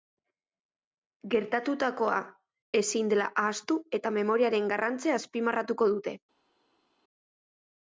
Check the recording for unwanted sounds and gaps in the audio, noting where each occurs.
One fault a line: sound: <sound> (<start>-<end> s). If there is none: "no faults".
no faults